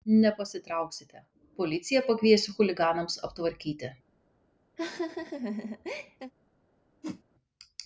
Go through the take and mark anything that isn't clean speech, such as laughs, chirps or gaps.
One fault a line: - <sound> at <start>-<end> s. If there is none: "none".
- laugh at 4.8-6.3 s
- whoosh at 7.0-7.2 s